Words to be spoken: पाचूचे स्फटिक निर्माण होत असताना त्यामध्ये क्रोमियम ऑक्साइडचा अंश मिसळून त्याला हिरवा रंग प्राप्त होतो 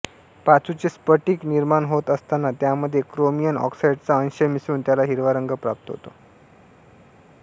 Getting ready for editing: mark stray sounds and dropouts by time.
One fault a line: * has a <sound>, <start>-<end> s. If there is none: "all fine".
all fine